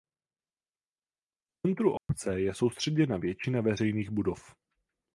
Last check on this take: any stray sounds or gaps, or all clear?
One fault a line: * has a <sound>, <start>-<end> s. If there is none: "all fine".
* has a dropout, 2.0-2.1 s